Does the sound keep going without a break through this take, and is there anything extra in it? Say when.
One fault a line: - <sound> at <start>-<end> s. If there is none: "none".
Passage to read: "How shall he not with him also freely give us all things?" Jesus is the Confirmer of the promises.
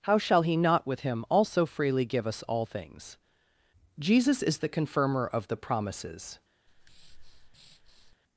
- breath at 6.7-8.2 s